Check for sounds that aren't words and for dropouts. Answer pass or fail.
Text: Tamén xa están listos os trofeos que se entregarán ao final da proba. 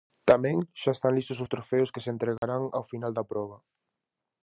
fail